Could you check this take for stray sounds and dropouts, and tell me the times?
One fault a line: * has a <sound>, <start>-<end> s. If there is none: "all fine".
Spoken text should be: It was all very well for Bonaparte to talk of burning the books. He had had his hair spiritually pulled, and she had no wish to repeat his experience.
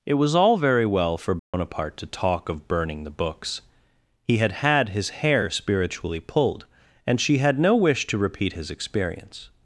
* has a dropout, 1.4-1.5 s